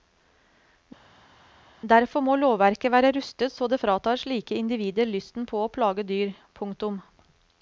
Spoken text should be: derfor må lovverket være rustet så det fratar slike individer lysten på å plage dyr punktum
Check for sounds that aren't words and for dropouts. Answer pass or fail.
pass